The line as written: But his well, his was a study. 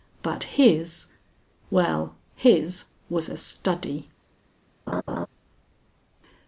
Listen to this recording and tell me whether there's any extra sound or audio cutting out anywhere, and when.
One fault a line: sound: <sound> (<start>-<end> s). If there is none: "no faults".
sound: laugh (4.9-5.3 s)